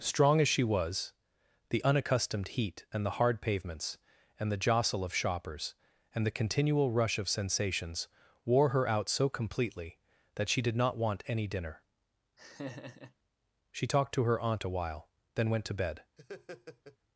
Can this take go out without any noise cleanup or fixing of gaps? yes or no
no